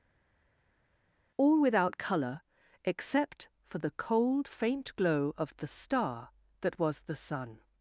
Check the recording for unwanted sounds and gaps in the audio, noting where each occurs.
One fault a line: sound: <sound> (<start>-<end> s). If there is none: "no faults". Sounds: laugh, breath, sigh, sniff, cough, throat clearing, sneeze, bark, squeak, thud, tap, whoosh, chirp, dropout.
no faults